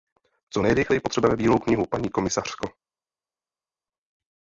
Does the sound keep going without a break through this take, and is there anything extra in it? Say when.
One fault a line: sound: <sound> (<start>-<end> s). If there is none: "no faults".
no faults